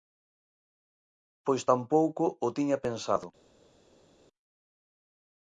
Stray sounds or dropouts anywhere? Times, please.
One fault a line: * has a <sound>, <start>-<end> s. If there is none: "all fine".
all fine